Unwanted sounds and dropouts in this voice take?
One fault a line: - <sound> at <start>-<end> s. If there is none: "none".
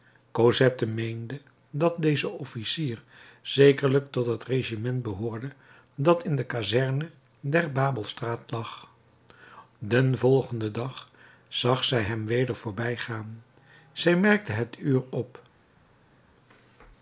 none